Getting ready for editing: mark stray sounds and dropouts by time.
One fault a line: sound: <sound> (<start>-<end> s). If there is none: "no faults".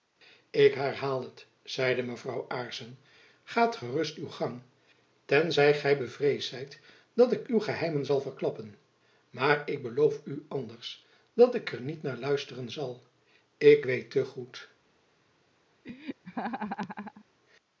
sound: laugh (15.8-17.3 s)